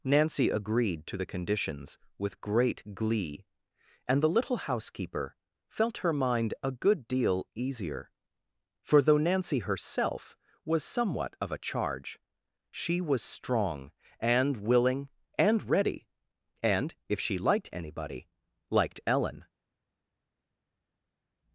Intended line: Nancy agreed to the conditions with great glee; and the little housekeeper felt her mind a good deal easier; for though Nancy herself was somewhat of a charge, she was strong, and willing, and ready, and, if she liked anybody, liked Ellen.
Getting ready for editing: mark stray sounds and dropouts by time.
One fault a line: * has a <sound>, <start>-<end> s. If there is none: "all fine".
all fine